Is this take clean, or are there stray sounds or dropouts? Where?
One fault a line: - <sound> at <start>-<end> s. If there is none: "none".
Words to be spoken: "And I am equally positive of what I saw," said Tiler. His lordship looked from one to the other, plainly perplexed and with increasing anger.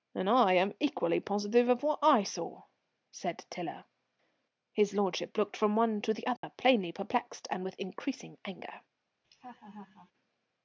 - dropout at 6.4-6.4 s
- laugh at 9.2-10.1 s